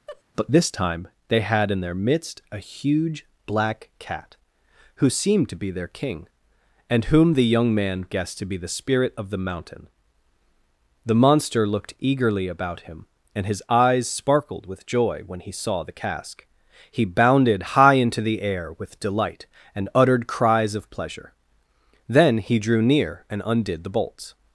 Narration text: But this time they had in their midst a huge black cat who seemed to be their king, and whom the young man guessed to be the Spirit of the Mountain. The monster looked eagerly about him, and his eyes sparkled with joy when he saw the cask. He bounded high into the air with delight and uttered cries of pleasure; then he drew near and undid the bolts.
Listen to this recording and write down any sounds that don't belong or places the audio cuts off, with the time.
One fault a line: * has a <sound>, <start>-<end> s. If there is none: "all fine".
* has a laugh, 0.1-0.2 s